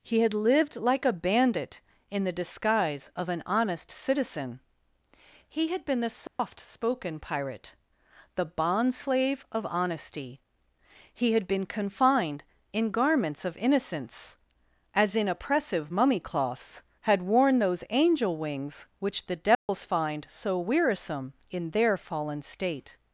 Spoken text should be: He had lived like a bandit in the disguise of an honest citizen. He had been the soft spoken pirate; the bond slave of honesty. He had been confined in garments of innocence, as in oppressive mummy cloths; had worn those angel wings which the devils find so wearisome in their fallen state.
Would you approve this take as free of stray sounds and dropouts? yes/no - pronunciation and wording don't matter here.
no